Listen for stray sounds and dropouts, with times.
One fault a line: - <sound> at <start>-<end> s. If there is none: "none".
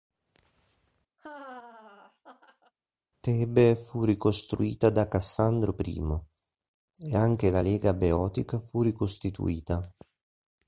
- laugh at 1.2-2.7 s